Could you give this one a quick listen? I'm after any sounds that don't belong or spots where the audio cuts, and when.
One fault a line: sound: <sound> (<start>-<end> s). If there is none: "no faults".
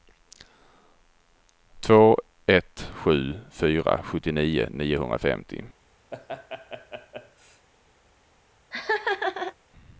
sound: laugh (6.1-7.7 s)
sound: laugh (8.7-9.5 s)